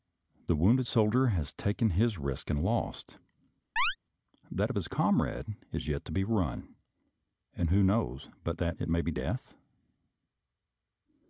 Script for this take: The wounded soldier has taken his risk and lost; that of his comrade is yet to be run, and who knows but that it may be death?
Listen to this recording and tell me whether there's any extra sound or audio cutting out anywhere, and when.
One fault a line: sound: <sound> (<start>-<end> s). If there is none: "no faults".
sound: chirp (3.8-4.0 s)